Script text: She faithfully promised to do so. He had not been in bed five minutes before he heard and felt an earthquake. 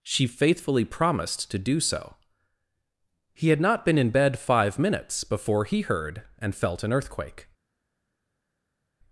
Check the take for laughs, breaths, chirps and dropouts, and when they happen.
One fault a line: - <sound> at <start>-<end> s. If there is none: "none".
none